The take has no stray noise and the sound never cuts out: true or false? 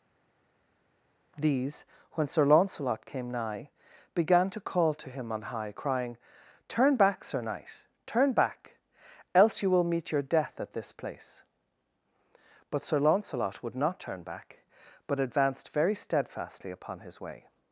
true